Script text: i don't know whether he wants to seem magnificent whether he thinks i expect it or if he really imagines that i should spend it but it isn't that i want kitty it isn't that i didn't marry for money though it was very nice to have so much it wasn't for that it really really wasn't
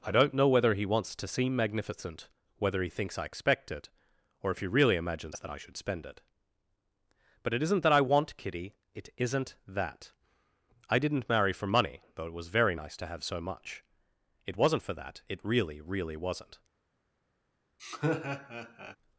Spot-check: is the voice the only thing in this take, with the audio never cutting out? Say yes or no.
no